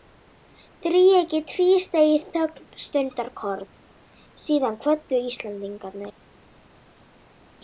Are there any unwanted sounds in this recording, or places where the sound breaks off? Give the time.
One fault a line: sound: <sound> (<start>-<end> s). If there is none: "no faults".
no faults